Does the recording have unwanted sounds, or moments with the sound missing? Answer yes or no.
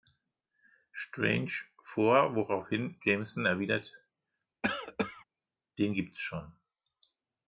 yes